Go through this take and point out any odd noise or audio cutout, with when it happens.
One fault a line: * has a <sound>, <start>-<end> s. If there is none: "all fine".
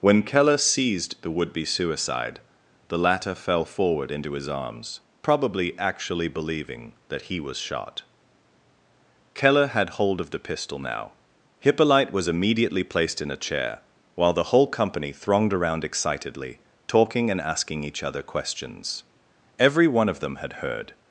all fine